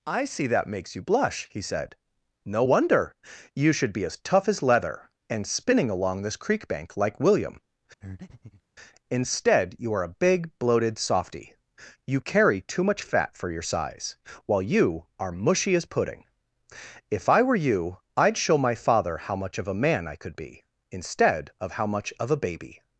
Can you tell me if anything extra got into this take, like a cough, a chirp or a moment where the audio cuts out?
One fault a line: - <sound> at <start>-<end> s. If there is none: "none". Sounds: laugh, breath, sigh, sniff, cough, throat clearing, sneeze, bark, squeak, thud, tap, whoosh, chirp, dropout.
- breath at 8.0-8.6 s